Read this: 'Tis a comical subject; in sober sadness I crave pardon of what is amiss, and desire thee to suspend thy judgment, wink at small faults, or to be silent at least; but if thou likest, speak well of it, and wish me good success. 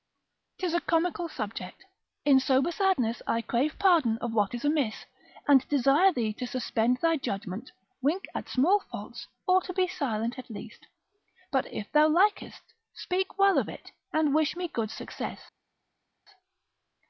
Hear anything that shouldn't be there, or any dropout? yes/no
no